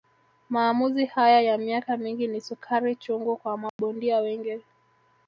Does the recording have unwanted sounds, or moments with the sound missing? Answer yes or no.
yes